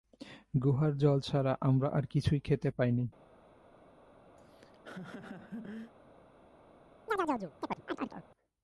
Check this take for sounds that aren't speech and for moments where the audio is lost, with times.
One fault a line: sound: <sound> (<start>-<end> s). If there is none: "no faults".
sound: laugh (4.4-5.9 s)
sound: chirp (7.1-8.2 s)